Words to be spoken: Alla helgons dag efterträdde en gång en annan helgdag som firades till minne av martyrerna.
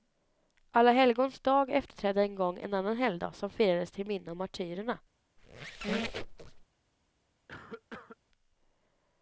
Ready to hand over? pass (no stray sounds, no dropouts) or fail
fail